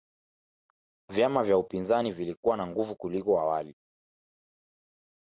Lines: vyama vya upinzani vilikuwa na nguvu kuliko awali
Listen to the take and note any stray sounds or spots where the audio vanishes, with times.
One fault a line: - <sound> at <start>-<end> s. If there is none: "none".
none